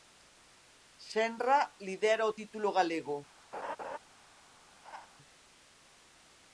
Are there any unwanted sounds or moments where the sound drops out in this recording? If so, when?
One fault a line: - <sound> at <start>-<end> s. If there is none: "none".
- laugh at 3.5-4.0 s
- laugh at 4.8-5.1 s